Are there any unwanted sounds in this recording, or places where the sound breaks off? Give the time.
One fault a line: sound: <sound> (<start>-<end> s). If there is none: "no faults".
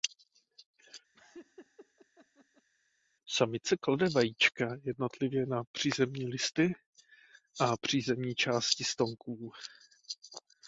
sound: laugh (1.1-2.7 s)